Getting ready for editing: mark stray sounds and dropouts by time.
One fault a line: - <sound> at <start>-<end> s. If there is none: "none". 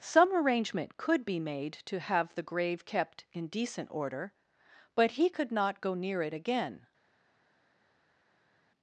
none